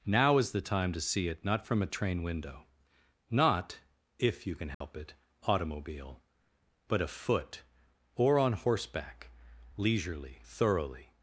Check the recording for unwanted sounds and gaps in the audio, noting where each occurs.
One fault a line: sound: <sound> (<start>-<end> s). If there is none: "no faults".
sound: dropout (4.7-4.8 s)